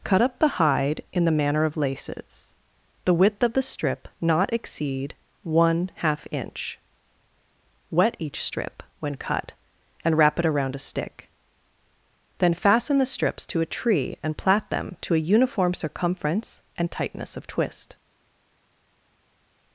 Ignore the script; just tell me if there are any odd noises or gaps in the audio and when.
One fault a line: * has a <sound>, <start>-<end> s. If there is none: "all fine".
all fine